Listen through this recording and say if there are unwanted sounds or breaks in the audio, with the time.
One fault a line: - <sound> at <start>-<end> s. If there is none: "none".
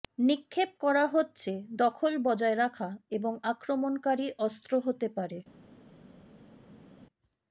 none